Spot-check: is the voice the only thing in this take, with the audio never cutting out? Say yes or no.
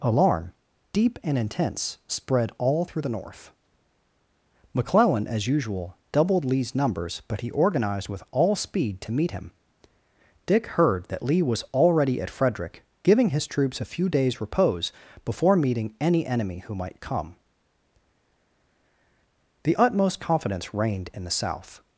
yes